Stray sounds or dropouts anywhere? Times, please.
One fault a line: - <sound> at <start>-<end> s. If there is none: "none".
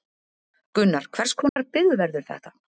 - dropout at 1.5-1.6 s